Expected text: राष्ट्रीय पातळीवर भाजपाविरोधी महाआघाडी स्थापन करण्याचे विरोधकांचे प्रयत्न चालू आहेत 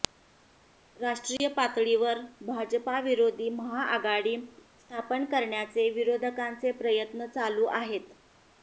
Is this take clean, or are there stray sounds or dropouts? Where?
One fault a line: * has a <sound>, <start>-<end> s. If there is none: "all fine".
* has a dropout, 1.4-1.4 s